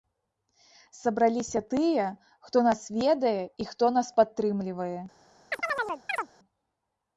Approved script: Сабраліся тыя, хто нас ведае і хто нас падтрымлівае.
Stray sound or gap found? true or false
true